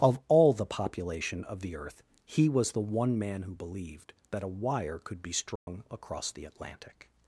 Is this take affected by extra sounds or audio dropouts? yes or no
yes